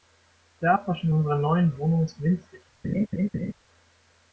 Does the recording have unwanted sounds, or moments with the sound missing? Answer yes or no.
yes